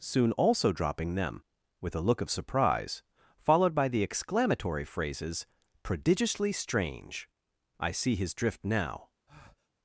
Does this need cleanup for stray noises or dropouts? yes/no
yes